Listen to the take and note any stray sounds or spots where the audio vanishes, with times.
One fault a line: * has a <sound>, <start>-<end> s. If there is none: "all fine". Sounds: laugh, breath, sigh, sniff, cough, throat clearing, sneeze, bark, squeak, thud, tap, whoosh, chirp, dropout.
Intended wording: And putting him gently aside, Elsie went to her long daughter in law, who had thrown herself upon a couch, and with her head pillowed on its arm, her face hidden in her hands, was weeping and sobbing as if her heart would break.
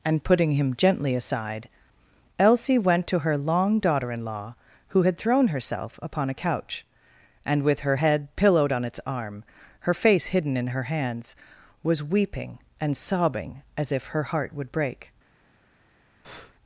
* has a breath, 16.2-16.5 s